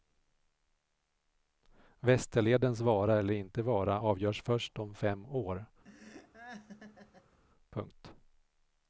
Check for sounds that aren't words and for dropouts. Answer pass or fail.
fail